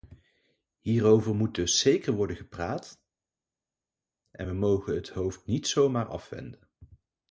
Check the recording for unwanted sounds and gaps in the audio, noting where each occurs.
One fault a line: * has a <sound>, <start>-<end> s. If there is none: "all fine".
all fine